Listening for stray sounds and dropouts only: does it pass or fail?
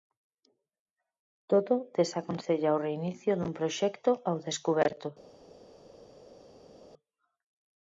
pass